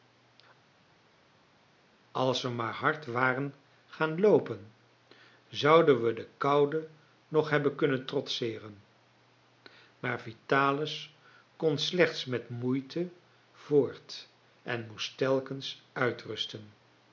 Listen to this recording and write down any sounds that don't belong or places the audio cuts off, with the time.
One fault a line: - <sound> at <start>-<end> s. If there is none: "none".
none